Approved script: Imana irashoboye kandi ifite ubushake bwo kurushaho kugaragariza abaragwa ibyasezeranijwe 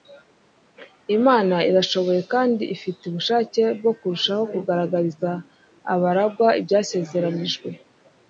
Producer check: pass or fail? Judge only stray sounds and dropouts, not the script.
pass